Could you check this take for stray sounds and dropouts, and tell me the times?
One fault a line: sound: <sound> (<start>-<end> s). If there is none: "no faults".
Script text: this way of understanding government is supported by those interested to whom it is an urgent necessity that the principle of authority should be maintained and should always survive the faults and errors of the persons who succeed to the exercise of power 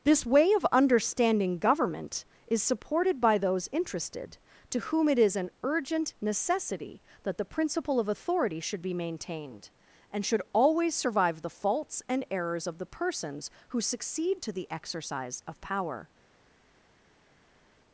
no faults